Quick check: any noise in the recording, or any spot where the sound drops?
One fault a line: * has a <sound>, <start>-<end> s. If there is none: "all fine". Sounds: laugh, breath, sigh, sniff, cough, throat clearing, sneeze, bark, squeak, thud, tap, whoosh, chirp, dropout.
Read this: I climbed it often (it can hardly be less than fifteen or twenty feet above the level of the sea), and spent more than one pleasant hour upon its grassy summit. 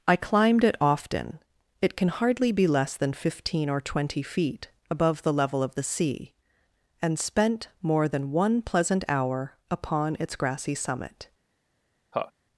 * has a laugh, 12.1-12.3 s